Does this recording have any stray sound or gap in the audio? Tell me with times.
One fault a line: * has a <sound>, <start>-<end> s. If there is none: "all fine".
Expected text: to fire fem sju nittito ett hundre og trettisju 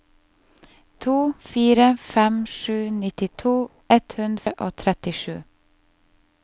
* has a dropout, 4.4-4.5 s